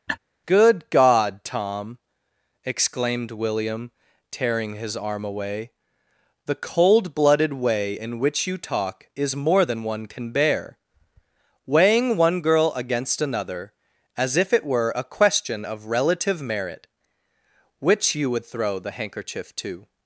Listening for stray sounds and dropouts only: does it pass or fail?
fail